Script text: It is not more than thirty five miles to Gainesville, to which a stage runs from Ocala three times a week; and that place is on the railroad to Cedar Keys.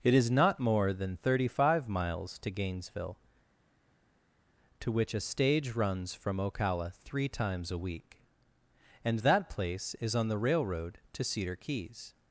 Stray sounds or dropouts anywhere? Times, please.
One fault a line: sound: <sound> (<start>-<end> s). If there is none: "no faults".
no faults